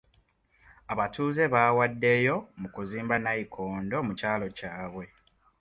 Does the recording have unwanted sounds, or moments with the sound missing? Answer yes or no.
no